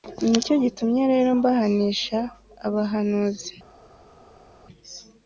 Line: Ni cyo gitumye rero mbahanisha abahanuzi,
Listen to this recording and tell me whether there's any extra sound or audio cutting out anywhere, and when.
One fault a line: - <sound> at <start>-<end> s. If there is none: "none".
none